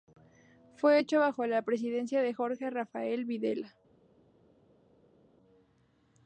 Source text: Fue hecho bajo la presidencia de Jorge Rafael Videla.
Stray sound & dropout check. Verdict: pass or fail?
pass